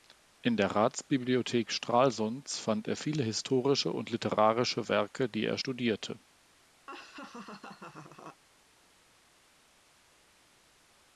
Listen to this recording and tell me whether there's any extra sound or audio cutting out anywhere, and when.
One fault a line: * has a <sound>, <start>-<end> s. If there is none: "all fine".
* has a laugh, 6.9-8.4 s